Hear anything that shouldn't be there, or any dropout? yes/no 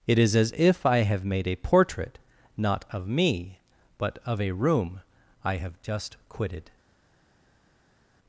no